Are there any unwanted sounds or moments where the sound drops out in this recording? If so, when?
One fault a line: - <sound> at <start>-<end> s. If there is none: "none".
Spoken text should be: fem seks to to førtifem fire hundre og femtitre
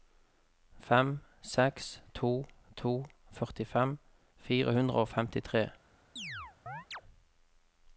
- chirp at 6.2-7.0 s